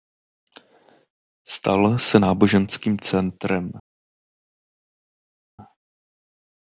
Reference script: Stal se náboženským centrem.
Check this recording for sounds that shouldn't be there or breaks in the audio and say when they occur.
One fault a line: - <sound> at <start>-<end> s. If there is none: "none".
none